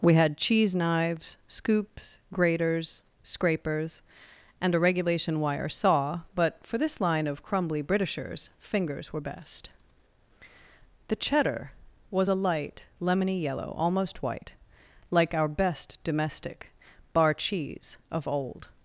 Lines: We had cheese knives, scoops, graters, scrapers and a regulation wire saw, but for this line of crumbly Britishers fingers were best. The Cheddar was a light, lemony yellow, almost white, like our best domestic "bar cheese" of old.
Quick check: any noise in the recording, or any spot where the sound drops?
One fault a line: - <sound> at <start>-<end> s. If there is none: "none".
none